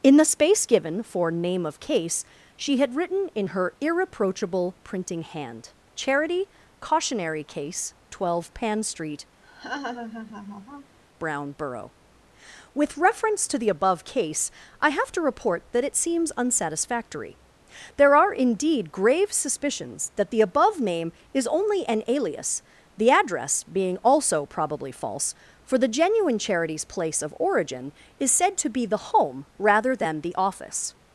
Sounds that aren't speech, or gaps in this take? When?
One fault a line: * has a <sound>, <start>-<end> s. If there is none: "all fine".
* has a laugh, 9.4-11.0 s